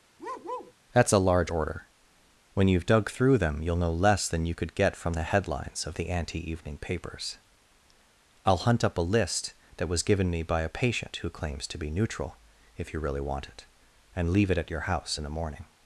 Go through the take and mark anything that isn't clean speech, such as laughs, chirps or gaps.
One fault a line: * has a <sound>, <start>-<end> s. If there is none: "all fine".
* has a bark, 0.2-0.7 s